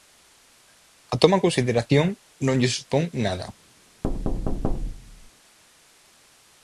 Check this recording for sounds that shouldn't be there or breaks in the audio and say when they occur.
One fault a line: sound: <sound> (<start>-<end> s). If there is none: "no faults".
sound: thud (4.0-5.3 s)